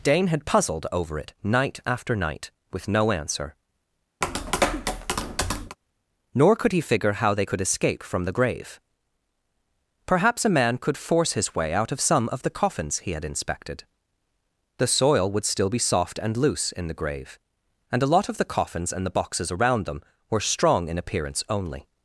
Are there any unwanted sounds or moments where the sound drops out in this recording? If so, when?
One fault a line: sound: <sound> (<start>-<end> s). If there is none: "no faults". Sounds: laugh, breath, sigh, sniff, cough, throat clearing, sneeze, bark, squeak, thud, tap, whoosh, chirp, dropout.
sound: tap (4.2-5.8 s)